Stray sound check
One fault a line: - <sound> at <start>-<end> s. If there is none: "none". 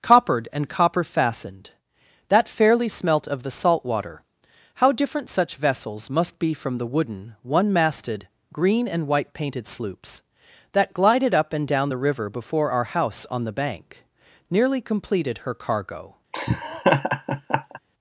- laugh at 16.3-17.8 s